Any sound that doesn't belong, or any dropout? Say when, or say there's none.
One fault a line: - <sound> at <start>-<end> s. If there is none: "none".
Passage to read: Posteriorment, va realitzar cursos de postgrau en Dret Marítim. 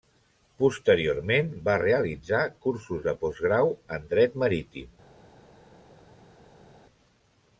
none